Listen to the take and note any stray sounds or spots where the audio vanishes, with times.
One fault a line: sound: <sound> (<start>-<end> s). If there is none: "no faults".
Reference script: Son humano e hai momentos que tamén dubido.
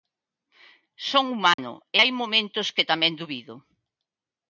sound: dropout (1.5-1.6 s)